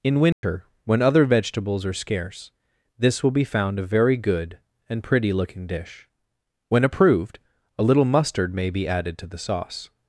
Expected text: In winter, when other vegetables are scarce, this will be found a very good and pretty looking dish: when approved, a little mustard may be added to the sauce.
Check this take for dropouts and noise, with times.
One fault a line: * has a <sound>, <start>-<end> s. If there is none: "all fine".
* has a dropout, 0.3-0.4 s